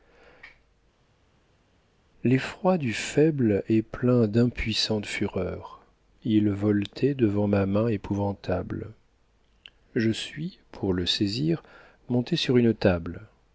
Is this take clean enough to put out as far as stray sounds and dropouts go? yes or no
yes